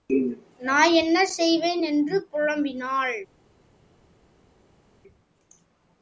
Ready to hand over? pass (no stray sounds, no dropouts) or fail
pass